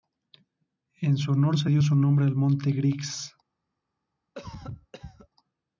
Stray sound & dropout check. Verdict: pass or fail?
fail